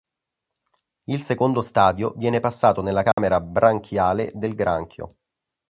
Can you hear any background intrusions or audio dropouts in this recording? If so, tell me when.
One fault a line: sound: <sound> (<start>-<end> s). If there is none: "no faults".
sound: dropout (3.1-3.2 s)